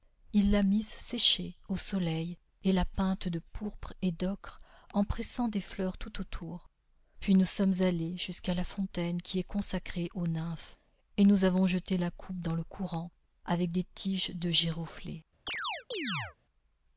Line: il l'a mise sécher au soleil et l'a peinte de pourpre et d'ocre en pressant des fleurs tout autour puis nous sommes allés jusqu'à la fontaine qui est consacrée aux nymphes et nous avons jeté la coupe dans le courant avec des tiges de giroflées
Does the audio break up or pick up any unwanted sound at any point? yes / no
yes